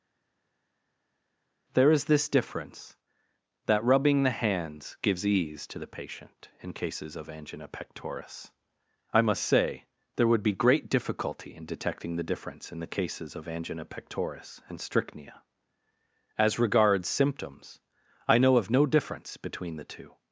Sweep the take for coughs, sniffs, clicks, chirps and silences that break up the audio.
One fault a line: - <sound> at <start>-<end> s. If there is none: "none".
none